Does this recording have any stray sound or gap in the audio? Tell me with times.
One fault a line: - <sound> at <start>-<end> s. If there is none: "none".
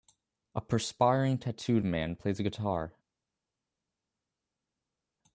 none